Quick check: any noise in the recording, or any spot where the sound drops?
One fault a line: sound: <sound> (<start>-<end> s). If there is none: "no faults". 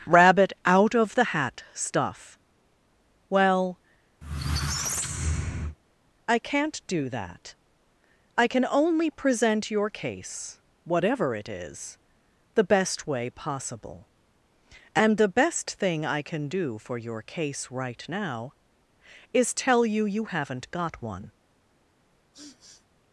sound: squeak (4.2-5.8 s)
sound: sniff (22.3-22.9 s)